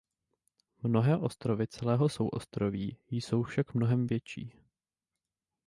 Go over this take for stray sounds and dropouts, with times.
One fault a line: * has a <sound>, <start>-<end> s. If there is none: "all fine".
all fine